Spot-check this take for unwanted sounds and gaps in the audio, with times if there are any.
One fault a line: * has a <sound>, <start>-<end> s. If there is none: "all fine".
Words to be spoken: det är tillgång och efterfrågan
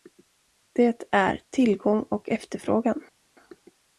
all fine